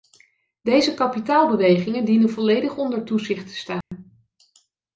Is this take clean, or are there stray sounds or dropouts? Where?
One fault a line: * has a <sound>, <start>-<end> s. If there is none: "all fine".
* has a dropout, 3.8-3.9 s